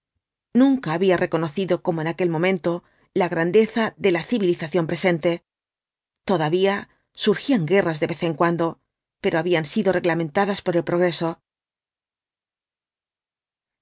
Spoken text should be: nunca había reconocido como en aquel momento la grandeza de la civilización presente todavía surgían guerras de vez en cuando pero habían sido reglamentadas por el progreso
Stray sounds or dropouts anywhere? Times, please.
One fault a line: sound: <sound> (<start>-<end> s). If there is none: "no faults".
no faults